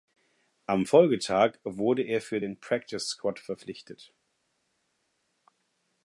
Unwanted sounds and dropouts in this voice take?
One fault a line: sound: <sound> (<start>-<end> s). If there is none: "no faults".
no faults